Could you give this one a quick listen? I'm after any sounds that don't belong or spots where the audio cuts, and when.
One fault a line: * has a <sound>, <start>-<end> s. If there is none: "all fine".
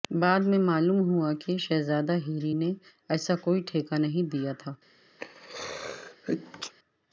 * has a sneeze, 5.2-6.7 s